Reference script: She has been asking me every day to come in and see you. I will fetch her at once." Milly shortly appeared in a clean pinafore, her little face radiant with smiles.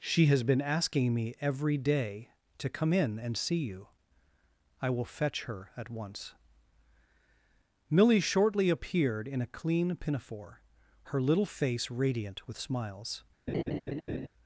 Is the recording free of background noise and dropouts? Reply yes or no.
no